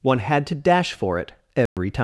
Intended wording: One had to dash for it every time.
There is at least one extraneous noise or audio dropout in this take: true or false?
true